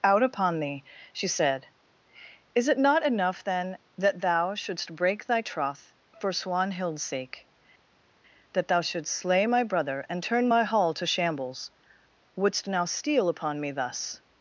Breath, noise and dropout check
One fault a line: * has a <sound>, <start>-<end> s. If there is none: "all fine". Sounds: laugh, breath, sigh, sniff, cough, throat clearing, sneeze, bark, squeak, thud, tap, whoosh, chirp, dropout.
all fine